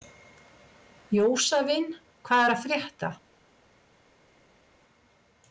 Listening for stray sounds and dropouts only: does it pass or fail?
pass